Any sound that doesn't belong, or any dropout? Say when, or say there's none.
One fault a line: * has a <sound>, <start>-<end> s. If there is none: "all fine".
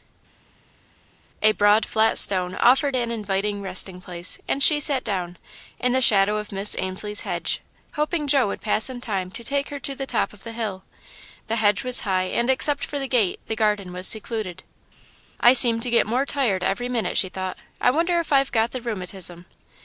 all fine